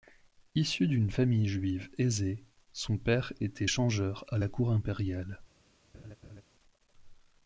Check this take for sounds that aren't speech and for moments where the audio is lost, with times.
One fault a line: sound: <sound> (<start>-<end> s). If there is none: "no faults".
sound: laugh (5.9-6.4 s)